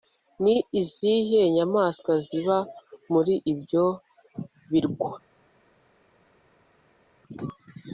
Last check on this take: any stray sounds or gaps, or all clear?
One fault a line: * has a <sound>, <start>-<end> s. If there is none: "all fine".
all fine